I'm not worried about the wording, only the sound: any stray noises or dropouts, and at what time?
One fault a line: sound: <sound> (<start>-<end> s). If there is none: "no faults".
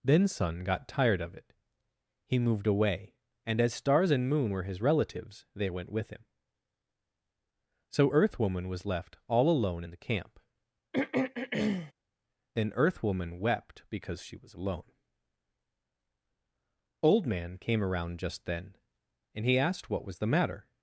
sound: throat clearing (10.9-11.9 s)